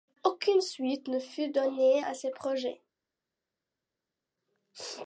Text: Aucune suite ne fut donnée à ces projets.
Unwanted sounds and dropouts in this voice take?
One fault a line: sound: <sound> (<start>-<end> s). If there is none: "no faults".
no faults